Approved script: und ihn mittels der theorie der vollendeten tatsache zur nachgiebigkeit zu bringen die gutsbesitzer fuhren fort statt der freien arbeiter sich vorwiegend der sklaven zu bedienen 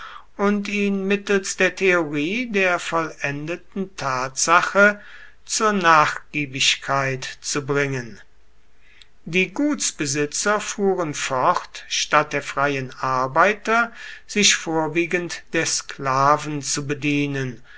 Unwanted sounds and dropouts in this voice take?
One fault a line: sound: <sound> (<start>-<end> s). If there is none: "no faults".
no faults